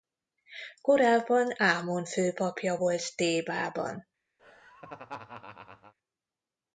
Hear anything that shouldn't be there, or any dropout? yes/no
yes